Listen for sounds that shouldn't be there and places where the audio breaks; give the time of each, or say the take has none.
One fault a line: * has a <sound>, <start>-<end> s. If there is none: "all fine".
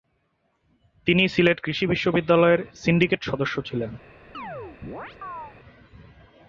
* has a chirp, 4.3-5.5 s